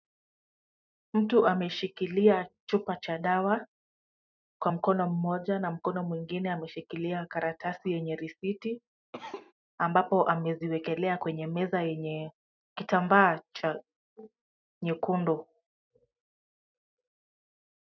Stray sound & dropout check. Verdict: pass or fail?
fail